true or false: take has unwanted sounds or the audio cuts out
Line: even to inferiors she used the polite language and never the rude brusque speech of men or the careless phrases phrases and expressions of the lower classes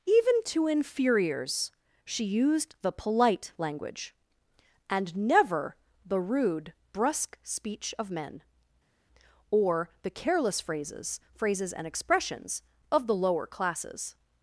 false